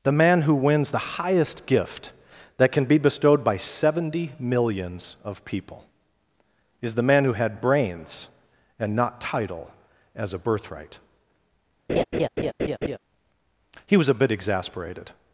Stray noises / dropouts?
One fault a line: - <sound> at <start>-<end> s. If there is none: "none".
- laugh at 11.9-13.0 s